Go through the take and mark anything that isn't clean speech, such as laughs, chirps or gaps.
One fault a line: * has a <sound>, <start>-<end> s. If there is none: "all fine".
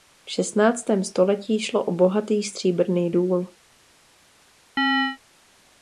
* has a chirp, 4.8-5.2 s